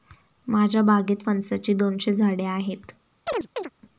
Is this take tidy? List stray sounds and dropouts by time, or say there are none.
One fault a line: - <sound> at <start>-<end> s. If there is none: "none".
- chirp at 3.3-3.7 s